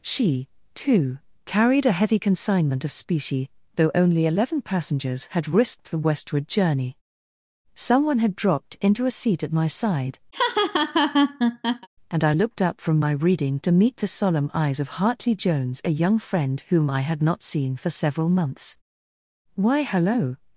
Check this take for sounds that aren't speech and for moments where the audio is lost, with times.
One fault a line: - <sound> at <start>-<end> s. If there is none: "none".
- laugh at 10.3-11.9 s